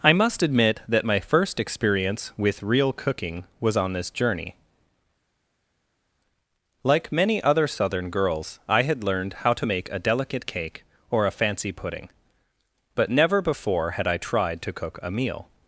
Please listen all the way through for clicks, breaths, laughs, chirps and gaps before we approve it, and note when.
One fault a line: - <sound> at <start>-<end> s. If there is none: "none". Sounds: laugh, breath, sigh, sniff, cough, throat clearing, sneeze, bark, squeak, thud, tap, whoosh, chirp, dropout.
none